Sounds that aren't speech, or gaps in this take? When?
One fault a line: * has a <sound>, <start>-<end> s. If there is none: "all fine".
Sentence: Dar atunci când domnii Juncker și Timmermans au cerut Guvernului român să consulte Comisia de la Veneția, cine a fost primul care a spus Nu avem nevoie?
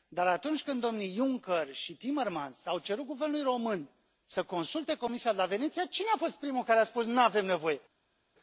all fine